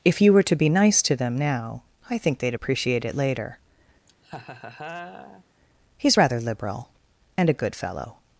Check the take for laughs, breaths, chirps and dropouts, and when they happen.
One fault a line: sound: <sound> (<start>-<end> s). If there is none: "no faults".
sound: laugh (4.1-5.4 s)